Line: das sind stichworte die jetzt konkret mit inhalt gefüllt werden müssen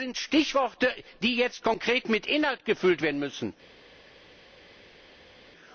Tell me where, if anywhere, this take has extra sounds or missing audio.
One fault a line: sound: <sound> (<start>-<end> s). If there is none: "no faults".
no faults